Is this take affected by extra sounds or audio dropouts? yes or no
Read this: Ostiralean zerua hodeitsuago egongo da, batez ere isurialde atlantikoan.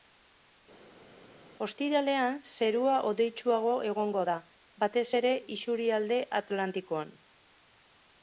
no